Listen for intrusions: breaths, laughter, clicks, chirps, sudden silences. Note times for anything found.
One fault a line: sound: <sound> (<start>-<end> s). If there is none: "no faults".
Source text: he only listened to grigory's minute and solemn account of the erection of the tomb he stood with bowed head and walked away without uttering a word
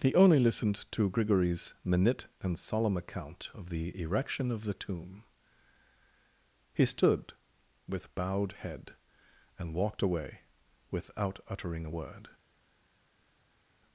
no faults